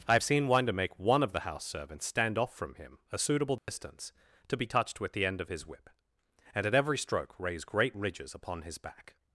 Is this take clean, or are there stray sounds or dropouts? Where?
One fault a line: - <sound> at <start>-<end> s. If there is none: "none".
- dropout at 3.6-3.7 s